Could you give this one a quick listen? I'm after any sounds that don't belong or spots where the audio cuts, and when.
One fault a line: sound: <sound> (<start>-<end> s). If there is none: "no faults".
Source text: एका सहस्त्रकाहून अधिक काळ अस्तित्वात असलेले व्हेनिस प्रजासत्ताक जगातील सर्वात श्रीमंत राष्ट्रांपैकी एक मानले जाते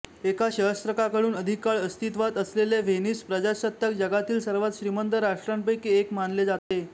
sound: dropout (6.6-6.7 s)